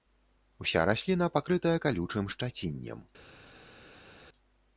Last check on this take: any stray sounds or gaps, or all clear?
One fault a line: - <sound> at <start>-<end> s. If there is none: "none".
none